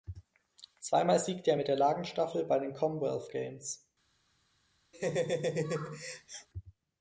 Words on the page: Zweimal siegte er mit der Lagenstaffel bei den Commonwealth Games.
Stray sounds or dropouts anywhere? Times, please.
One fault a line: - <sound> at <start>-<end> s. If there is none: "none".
- laugh at 4.9-6.5 s